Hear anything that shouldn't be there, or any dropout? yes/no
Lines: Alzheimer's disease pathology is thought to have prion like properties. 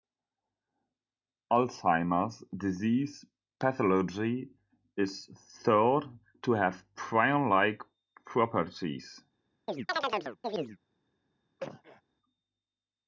yes